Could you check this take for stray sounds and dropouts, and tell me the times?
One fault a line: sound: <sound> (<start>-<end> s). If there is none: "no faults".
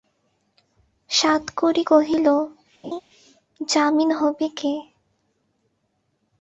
sound: laugh (2.8-3.0 s)